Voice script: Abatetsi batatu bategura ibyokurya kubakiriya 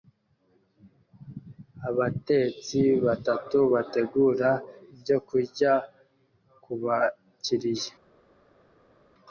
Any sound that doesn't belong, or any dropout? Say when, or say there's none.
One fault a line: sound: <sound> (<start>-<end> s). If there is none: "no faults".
no faults